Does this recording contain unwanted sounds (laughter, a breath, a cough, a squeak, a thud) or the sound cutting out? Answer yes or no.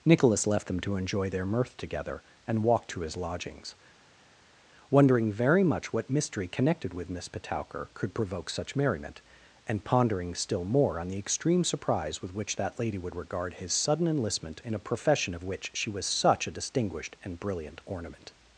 no